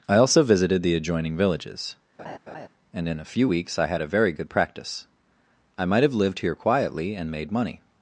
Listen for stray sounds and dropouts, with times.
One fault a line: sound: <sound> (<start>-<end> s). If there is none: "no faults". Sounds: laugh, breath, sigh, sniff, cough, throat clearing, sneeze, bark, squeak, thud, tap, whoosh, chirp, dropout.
sound: laugh (2.2-2.7 s)